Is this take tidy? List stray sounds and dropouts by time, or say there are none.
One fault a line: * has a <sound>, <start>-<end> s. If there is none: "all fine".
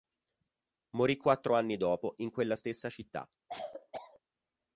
* has a cough, 3.5-4.2 s